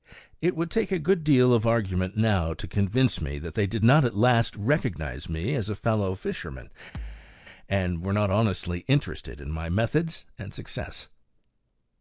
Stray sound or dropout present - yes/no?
yes